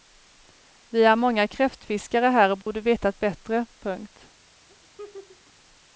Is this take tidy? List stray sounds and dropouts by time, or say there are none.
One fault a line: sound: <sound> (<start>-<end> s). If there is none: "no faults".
sound: dropout (2.6-2.7 s)
sound: laugh (4.7-5.5 s)